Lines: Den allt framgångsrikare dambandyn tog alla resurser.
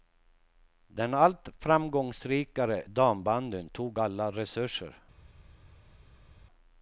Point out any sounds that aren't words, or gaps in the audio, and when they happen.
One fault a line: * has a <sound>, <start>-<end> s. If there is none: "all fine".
all fine